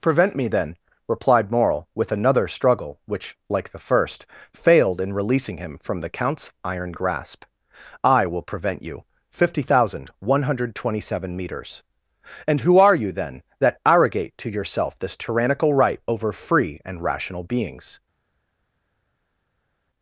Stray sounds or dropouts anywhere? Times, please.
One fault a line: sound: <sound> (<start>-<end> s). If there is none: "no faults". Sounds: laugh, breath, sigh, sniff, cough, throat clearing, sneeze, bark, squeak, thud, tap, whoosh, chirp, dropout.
no faults